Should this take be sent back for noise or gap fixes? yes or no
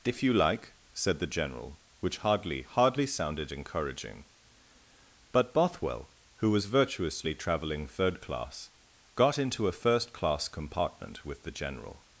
no